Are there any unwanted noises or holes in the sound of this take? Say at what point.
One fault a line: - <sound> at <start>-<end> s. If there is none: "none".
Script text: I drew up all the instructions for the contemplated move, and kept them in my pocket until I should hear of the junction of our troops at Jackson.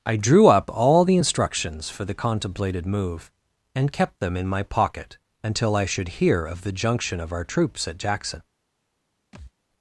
- thud at 9.3-9.5 s